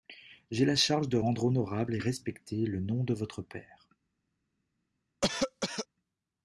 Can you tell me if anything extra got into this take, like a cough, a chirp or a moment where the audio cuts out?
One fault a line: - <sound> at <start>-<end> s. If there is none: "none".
- cough at 5.2-5.9 s